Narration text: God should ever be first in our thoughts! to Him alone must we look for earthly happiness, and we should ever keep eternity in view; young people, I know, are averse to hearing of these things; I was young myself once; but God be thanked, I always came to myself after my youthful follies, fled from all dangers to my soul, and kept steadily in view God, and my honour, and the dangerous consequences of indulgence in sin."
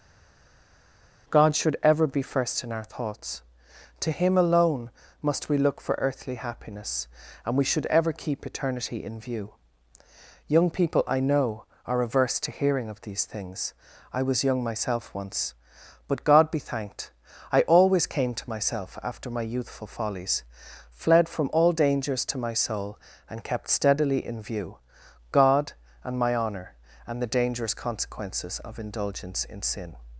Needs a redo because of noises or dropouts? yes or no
no